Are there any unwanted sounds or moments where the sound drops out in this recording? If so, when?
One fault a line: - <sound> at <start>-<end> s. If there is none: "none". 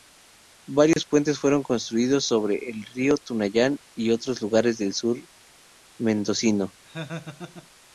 - dropout at 0.9-1.0 s
- laugh at 6.8-7.7 s